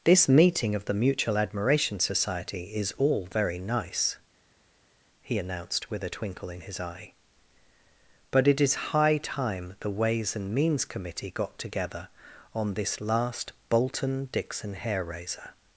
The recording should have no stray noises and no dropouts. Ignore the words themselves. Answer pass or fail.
pass